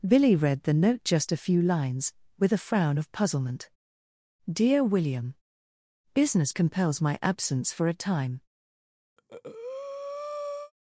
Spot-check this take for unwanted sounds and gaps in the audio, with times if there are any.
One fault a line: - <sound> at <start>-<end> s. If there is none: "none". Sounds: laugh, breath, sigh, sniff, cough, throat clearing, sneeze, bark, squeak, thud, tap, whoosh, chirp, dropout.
- breath at 9.2-10.7 s